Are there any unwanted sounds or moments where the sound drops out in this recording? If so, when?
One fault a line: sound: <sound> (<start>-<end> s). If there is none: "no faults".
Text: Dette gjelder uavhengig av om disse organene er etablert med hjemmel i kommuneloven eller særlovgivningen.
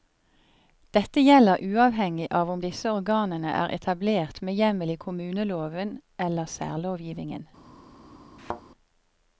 sound: thud (8.4-8.6 s)